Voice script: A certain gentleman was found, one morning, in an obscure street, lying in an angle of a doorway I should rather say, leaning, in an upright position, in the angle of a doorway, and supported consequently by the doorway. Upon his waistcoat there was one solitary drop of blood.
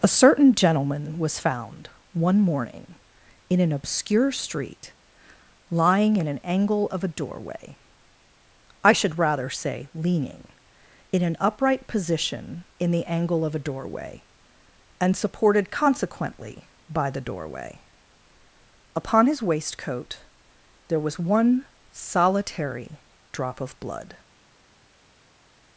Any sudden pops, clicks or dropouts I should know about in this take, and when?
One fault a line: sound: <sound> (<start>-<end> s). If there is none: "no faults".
no faults